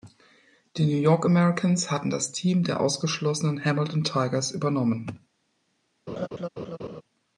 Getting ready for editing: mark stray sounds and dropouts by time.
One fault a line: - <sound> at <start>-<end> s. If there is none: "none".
- laugh at 6.1-7.0 s